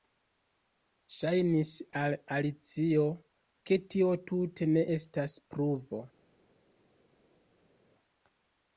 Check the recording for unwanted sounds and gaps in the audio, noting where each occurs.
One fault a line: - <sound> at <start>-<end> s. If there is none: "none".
none